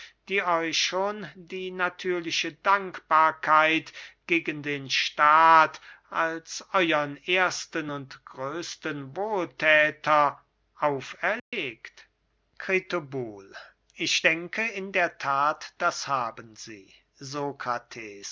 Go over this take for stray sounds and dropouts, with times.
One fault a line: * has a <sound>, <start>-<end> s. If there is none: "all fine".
* has a dropout, 11.4-11.5 s